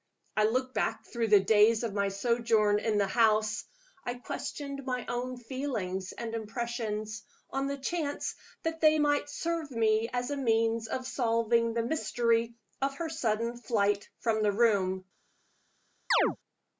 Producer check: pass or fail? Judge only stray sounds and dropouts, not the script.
fail